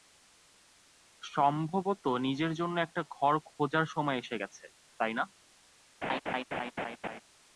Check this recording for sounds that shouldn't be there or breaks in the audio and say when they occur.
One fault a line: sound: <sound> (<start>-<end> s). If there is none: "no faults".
sound: laugh (6.0-7.2 s)